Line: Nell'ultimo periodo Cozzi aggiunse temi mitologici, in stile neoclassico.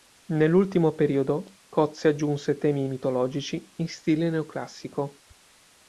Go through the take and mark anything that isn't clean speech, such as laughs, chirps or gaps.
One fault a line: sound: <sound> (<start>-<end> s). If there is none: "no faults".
no faults